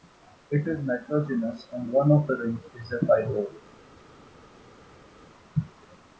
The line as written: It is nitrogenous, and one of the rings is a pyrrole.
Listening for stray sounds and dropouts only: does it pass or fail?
pass